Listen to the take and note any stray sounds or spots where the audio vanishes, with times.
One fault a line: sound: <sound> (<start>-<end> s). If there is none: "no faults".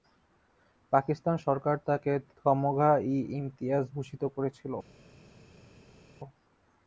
no faults